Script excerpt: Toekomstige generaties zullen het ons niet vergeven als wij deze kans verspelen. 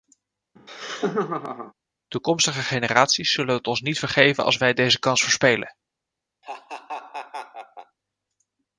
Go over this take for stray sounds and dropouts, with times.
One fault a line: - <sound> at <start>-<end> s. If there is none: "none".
- laugh at 0.6-1.7 s
- laugh at 6.4-8.0 s